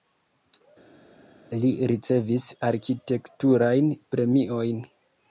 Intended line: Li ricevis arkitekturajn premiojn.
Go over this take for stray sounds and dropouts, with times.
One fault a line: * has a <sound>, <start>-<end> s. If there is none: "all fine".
all fine